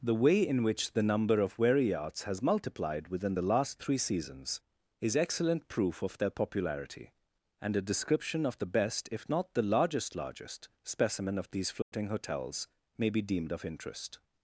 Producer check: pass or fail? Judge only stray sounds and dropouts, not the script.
fail